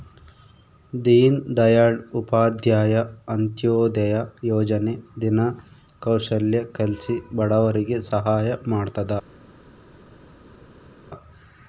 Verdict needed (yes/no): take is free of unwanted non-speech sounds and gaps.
yes